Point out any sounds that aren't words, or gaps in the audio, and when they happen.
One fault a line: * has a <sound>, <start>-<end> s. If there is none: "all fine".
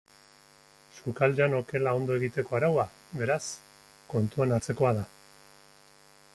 all fine